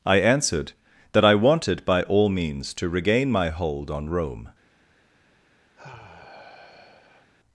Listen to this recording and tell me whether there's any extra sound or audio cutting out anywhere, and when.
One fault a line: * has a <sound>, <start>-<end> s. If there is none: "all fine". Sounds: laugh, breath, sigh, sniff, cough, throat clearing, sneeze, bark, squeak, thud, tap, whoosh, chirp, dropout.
* has a sigh, 5.7-7.3 s